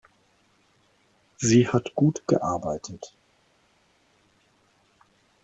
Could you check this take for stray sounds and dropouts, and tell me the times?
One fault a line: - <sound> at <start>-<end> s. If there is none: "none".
none